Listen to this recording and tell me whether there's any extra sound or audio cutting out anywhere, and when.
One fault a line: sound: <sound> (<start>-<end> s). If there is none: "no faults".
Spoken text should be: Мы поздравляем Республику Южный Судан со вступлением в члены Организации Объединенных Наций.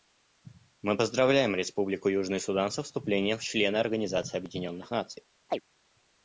sound: chirp (5.5-5.6 s)